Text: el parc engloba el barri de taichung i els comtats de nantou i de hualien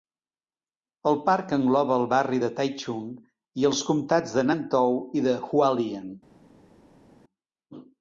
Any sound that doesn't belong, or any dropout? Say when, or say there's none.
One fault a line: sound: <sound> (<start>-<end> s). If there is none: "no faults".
no faults